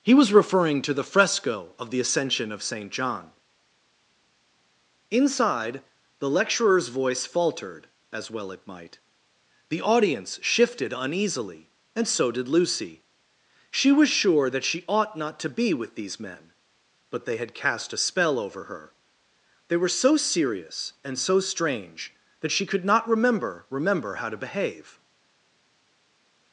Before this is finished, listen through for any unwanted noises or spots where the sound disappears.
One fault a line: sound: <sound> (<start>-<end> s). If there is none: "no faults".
no faults